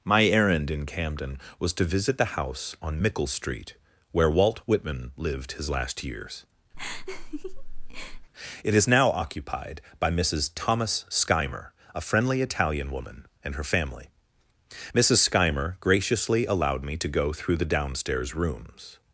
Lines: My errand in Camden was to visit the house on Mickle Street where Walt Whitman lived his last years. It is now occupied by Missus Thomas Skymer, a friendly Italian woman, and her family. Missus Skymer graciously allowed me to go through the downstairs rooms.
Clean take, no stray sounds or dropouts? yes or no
no